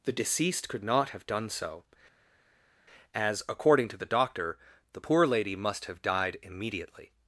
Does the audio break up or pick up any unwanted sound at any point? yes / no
no